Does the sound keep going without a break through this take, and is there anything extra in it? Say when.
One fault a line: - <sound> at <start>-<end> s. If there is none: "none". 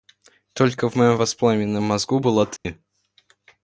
- dropout at 2.6-2.7 s